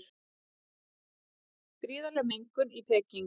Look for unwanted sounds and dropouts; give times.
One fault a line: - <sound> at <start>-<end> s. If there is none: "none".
none